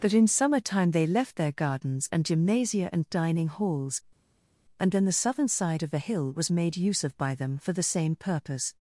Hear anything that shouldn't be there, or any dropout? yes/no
no